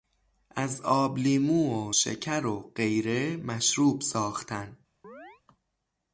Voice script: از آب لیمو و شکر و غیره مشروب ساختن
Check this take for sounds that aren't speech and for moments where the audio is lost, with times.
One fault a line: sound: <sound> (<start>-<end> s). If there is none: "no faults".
sound: chirp (5.0-5.4 s)